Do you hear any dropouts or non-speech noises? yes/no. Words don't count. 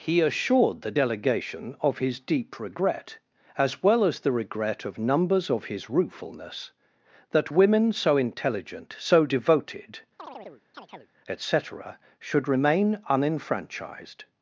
yes